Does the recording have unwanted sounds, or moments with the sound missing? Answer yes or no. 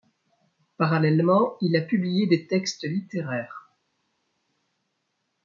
no